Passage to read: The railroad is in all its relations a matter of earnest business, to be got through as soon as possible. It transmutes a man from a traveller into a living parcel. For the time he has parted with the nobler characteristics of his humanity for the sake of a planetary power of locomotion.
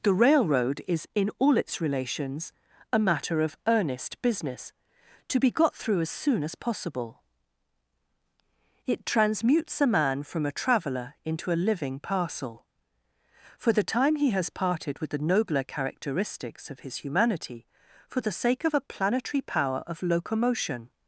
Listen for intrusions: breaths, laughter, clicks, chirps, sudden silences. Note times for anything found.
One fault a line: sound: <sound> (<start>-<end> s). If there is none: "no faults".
no faults